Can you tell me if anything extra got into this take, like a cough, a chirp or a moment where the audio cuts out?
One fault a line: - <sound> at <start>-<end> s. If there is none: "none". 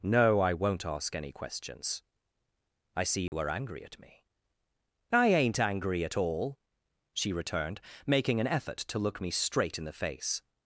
- dropout at 3.3-3.3 s